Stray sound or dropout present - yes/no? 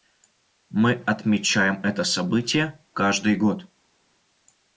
no